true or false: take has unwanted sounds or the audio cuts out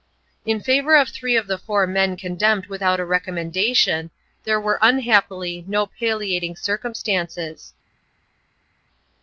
false